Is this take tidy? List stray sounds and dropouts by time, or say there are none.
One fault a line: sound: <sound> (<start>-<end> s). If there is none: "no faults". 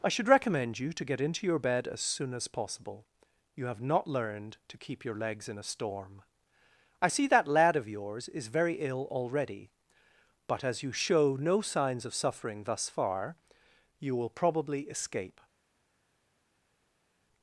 no faults